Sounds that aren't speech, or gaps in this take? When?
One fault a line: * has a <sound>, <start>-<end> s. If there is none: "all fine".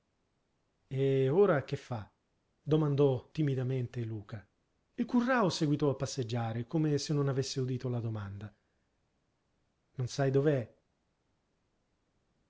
all fine